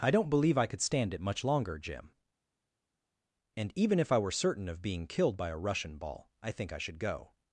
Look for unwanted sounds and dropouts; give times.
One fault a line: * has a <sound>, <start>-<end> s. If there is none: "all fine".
all fine